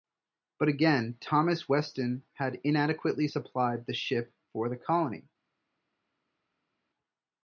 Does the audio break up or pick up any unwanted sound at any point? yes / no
no